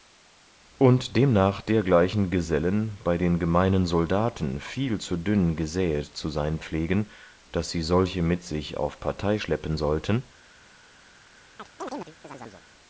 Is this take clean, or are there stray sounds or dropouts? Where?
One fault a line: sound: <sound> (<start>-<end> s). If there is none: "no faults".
sound: chirp (11.6-12.6 s)